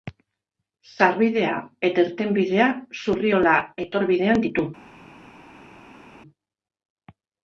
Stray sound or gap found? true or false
false